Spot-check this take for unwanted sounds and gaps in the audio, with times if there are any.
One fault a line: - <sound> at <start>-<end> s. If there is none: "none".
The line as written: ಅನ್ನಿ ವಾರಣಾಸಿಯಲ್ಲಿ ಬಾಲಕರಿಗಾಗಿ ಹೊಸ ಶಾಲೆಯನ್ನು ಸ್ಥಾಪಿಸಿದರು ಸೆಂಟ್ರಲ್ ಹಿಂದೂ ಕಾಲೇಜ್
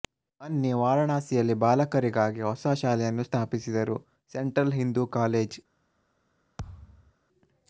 - thud at 6.6-7.1 s